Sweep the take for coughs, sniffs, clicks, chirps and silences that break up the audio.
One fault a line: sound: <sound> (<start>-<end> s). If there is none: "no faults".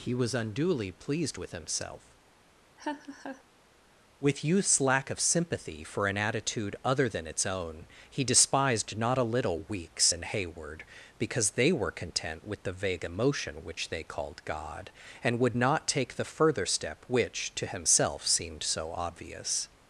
sound: laugh (2.8-3.4 s)